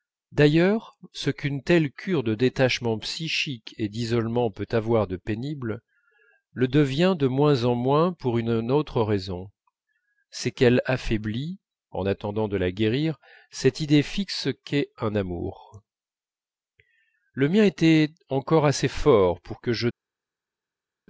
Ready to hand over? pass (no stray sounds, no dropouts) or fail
pass